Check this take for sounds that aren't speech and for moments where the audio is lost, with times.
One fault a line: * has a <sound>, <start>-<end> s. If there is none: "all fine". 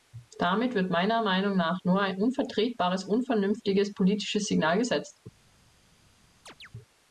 * has a chirp, 6.5-6.7 s